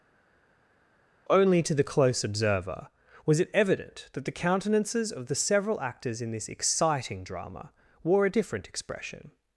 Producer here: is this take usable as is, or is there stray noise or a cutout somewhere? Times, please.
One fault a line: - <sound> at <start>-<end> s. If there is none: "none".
none